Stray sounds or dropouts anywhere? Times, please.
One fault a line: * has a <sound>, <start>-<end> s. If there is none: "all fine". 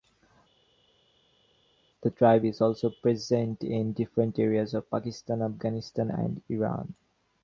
all fine